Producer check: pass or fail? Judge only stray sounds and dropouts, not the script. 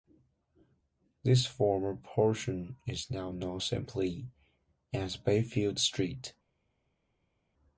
pass